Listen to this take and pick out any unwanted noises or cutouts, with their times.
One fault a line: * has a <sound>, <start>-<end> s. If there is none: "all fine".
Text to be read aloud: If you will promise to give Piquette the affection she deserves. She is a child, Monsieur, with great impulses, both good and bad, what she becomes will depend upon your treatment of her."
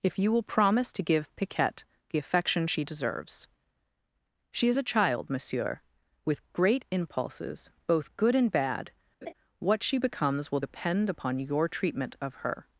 * has a laugh, 9.2-9.3 s